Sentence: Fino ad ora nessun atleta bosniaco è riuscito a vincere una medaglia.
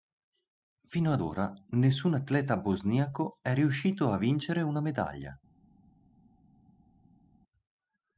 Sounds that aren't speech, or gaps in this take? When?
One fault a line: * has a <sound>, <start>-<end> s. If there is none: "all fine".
all fine